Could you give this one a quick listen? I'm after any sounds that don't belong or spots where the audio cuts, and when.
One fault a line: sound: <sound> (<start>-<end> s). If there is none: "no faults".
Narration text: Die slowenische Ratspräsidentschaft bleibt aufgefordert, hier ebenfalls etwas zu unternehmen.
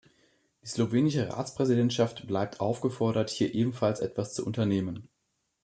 no faults